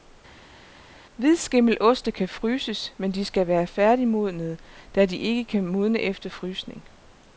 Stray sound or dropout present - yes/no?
no